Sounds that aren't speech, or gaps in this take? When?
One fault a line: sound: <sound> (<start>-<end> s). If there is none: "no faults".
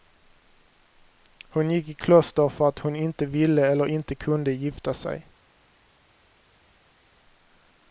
no faults